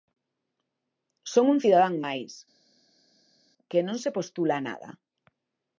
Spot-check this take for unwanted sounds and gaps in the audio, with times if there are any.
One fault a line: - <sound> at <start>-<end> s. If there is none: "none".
none